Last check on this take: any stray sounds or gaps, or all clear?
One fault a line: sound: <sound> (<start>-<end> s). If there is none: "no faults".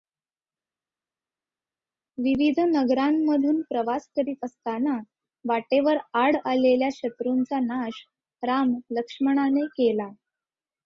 no faults